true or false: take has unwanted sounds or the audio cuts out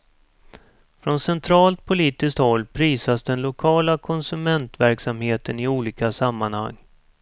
false